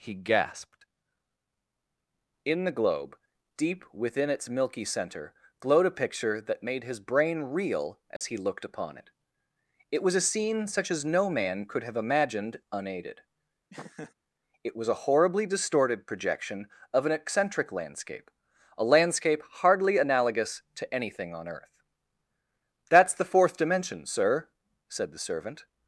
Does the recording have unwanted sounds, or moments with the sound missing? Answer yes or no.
yes